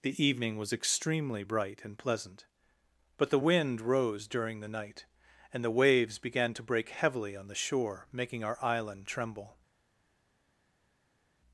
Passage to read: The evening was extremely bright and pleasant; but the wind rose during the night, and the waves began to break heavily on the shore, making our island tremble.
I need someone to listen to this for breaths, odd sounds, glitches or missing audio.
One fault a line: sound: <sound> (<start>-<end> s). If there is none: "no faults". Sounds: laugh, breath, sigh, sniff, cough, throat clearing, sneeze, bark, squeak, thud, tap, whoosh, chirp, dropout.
no faults